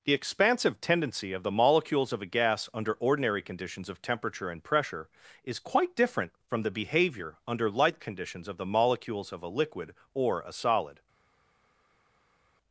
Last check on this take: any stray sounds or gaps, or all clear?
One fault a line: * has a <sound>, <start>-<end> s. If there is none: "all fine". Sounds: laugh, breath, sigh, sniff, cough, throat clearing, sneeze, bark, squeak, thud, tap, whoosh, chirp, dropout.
all fine